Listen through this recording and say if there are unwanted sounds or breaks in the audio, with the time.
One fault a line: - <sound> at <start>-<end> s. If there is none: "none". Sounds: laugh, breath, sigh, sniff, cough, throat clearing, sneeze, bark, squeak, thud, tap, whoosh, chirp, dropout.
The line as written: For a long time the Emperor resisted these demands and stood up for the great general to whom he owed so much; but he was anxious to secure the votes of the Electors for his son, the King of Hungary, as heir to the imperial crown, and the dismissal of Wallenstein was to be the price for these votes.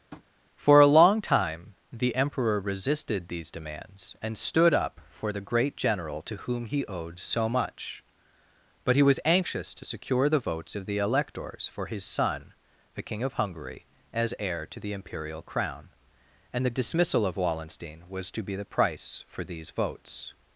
- tap at 0.1-0.3 s